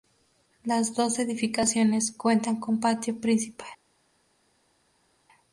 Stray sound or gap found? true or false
false